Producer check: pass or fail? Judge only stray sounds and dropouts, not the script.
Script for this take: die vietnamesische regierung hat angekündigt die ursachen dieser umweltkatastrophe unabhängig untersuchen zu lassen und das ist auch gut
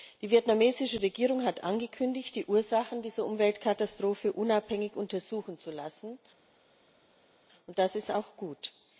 pass